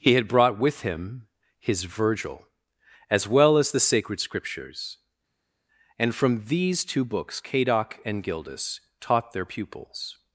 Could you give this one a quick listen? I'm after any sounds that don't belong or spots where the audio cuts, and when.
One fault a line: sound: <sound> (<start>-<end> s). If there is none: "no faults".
no faults